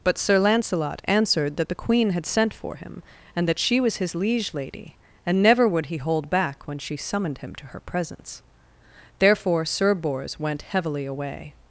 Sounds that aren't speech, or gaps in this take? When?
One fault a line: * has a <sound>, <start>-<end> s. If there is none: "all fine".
all fine